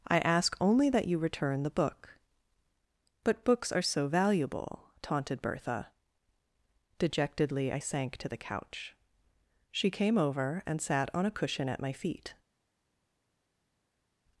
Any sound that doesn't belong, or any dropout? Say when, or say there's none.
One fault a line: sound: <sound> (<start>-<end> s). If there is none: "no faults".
no faults